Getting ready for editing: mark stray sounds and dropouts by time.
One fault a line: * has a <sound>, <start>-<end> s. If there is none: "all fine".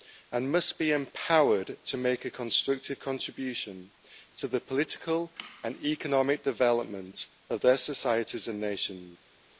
all fine